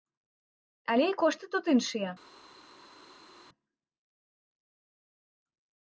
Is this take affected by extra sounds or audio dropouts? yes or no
no